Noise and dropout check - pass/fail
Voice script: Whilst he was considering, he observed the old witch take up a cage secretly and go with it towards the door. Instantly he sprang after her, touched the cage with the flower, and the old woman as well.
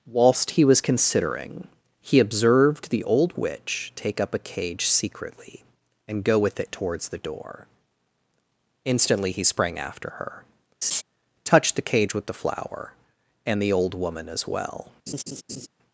fail